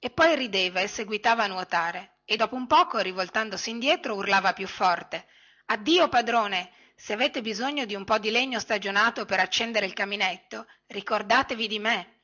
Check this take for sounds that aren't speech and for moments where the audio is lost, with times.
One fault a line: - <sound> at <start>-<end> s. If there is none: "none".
none